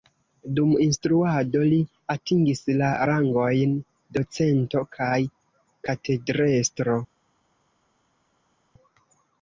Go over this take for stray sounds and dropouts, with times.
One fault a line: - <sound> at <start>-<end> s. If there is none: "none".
none